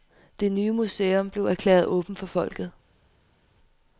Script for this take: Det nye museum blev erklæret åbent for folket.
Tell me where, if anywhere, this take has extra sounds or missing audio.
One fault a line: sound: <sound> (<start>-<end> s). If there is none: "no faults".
no faults